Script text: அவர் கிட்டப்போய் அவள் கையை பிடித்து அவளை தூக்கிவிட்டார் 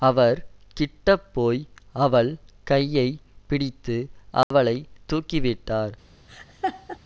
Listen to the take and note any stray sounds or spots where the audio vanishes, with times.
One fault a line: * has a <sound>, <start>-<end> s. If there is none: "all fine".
* has a dropout, 4.4-4.5 s
* has a laugh, 6.3-7.0 s